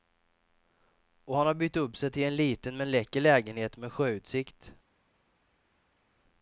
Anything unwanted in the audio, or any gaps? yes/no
no